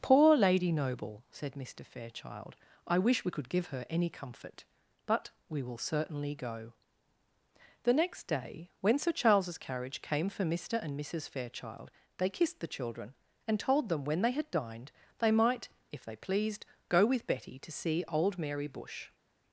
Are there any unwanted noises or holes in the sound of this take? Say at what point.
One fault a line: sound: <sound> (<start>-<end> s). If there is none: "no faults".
no faults